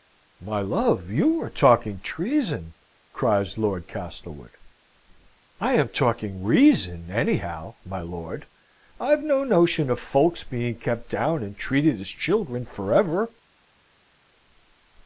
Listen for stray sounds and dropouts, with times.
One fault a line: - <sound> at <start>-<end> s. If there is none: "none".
none